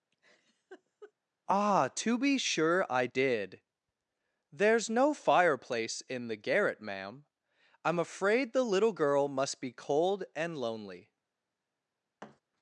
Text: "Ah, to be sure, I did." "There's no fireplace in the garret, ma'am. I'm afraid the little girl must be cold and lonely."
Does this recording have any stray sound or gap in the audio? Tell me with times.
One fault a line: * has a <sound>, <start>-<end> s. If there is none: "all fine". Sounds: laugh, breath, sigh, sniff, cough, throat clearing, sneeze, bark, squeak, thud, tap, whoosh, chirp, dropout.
* has a laugh, 0.1-1.1 s
* has a thud, 12.2-12.4 s